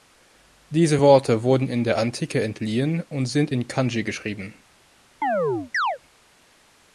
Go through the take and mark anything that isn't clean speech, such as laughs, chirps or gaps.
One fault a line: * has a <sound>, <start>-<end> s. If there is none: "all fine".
* has a chirp, 5.2-6.0 s